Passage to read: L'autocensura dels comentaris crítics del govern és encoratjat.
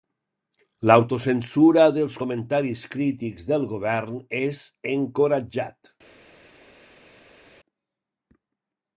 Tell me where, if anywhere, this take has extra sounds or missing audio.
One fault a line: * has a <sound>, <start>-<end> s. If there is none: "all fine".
all fine